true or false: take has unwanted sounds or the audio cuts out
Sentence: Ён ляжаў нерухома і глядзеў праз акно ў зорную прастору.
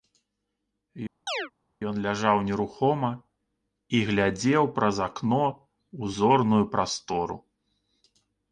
true